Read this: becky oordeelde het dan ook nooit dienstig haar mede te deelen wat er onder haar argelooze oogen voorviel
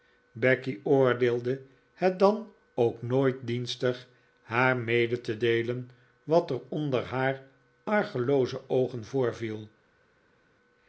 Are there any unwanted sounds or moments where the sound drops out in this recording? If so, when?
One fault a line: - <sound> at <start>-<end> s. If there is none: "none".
none